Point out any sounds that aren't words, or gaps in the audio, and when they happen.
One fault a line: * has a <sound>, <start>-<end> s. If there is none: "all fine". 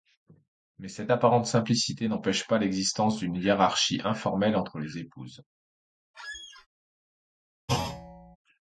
* has a squeak, 6.1-6.7 s
* has a thud, 7.7-8.4 s